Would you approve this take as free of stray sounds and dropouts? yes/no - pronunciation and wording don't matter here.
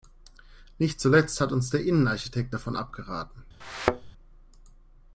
no